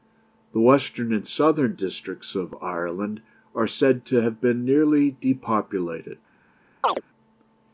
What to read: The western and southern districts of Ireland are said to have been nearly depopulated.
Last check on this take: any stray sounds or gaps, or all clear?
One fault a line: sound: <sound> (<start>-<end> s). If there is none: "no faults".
sound: chirp (6.8-7.0 s)